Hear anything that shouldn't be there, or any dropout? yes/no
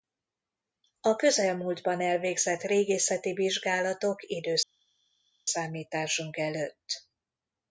no